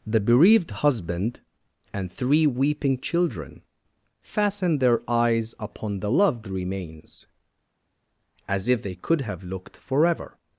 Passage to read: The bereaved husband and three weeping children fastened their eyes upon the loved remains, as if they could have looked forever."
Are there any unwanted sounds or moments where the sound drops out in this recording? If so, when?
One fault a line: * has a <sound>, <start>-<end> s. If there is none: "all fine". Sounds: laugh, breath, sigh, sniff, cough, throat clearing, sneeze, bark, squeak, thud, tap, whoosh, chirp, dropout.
all fine